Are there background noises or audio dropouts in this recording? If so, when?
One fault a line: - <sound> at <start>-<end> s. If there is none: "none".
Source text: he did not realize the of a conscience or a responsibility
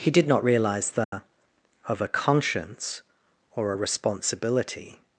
- dropout at 1.0-1.1 s